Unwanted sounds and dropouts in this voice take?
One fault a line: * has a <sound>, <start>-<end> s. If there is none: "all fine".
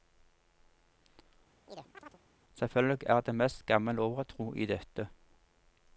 * has a chirp, 1.7-2.2 s